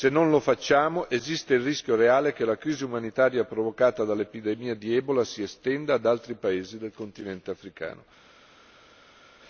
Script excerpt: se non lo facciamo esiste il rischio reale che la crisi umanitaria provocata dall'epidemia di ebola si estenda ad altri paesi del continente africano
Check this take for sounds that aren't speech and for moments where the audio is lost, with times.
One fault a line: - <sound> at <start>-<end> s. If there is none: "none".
none